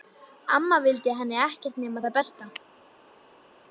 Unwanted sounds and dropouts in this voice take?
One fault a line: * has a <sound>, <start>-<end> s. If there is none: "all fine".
all fine